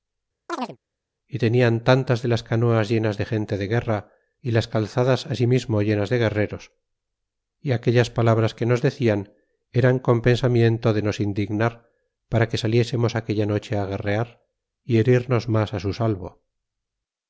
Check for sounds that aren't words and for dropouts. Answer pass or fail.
fail